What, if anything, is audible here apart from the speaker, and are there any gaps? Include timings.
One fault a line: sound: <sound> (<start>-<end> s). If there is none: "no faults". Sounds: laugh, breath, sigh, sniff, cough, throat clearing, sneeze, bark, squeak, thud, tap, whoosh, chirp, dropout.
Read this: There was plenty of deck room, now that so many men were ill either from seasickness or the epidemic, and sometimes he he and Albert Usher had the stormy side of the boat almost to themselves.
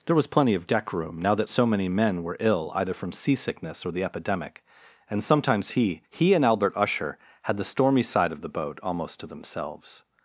no faults